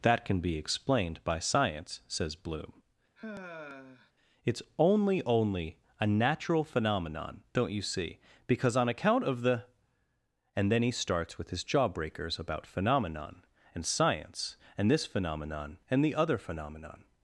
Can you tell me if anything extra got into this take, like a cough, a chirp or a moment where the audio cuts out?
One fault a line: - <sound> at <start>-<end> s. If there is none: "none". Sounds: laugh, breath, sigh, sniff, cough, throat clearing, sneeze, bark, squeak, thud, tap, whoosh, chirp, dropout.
- sigh at 3.2-4.1 s